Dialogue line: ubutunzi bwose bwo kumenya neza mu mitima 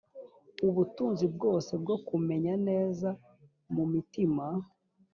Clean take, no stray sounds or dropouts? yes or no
yes